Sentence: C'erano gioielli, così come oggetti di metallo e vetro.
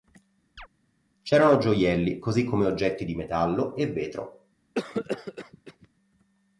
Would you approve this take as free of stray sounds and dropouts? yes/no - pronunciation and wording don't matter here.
no